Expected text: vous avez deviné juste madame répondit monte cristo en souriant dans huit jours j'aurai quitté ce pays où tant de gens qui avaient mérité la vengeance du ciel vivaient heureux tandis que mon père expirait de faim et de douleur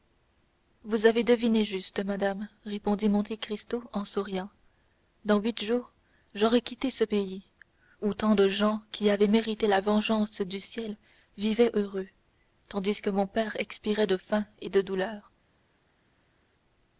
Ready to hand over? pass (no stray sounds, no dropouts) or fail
pass